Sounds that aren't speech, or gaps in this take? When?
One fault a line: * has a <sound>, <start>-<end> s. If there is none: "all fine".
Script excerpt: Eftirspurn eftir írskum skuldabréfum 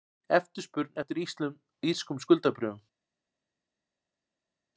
all fine